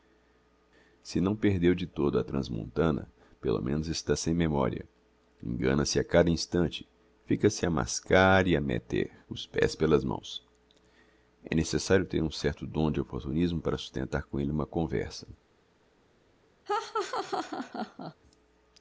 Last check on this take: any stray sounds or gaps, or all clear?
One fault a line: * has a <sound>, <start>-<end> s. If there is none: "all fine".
* has a laugh, 16.7-18.1 s